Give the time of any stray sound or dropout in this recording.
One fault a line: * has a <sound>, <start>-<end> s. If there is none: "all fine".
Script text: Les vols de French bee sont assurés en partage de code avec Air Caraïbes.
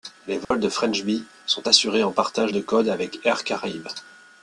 * has a dropout, 0.4-0.5 s